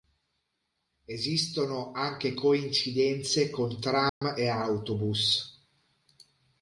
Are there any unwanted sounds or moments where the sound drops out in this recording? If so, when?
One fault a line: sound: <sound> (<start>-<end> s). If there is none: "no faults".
sound: dropout (4.1-4.2 s)